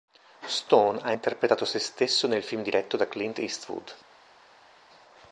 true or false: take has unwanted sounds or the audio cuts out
false